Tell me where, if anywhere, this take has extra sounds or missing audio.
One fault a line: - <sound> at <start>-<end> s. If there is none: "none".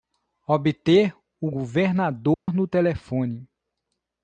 - dropout at 2.3-2.5 s